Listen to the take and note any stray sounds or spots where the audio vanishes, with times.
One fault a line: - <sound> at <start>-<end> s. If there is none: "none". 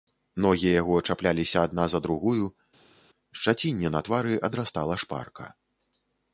none